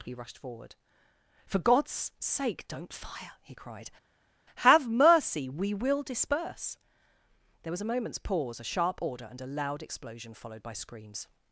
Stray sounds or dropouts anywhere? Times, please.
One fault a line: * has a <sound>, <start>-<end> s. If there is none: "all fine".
all fine